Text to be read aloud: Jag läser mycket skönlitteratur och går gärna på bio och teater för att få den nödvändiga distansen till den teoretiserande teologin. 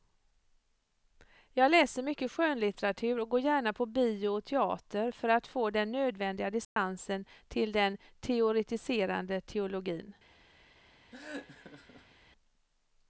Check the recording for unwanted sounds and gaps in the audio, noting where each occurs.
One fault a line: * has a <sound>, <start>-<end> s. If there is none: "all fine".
* has a dropout, 6.6-6.8 s
* has a laugh, 11.1-12.2 s